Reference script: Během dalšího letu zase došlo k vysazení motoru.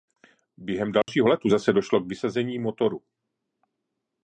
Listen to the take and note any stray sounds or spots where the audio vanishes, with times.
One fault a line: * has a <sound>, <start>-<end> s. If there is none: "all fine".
* has a dropout, 1.0-1.1 s